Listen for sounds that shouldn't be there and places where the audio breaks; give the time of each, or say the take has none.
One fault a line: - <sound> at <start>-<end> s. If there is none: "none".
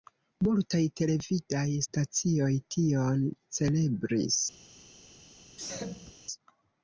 - sneeze at 5.6-6.1 s